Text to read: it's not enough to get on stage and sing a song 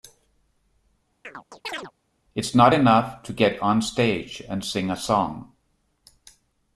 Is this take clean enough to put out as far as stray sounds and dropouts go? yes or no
no